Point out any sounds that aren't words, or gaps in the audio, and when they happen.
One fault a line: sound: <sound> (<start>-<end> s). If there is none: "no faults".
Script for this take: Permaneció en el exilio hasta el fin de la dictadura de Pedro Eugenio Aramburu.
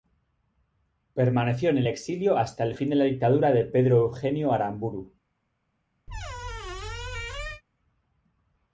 sound: squeak (6.1-7.6 s)